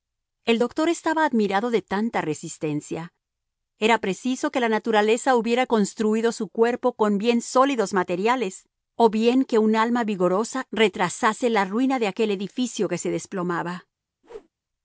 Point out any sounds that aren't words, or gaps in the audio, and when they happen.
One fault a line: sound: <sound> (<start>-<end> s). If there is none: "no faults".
sound: whoosh (14.2-14.5 s)